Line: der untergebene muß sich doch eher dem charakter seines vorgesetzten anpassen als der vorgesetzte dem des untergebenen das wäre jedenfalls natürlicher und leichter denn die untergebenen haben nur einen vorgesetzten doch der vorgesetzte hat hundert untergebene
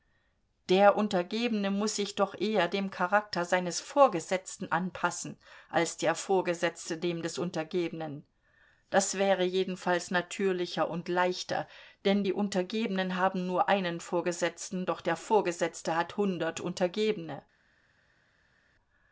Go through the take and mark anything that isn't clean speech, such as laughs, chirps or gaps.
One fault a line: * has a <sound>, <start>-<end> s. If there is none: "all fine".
all fine